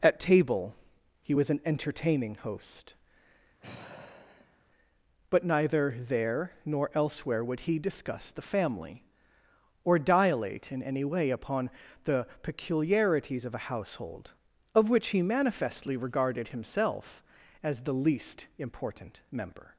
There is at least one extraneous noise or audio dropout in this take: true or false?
true